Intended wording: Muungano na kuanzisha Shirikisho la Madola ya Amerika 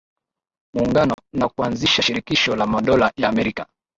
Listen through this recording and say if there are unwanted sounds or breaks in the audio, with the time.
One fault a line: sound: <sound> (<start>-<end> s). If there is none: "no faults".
sound: dropout (1.1-1.2 s)